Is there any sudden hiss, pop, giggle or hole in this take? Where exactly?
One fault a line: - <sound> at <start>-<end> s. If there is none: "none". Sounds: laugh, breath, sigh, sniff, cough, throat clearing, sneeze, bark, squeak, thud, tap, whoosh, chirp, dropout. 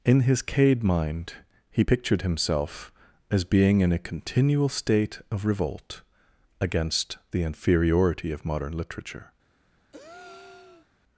- breath at 9.9-10.9 s